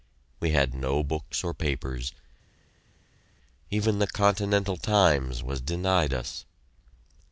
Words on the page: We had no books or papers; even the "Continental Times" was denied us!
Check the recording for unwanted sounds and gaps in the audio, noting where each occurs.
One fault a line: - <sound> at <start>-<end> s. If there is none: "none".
none